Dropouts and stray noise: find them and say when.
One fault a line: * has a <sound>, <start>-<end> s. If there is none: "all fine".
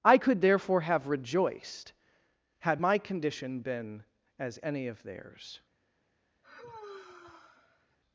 * has a sigh, 6.4-8.0 s